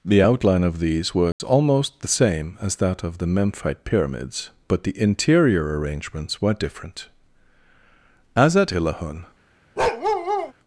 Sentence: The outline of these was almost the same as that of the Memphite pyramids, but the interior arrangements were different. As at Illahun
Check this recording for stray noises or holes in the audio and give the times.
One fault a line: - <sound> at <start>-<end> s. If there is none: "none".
- dropout at 1.3-1.4 s
- bark at 9.8-10.5 s